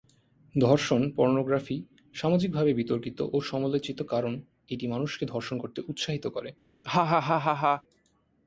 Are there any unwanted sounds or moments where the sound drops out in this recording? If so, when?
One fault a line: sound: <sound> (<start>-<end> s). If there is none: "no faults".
sound: laugh (6.8-7.8 s)